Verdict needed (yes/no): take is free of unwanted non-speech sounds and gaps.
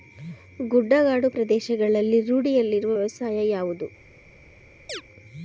no